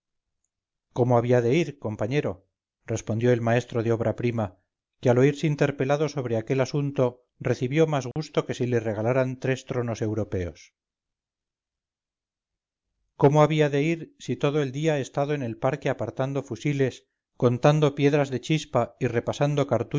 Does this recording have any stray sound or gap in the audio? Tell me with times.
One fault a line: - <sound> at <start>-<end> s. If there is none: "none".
- dropout at 8.1-8.2 s